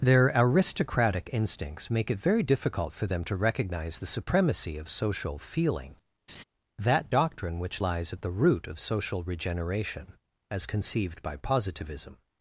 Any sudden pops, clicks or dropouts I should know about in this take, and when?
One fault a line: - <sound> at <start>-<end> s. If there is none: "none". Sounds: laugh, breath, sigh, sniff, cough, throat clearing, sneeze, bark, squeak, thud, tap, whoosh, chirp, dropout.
- laugh at 6.3-6.4 s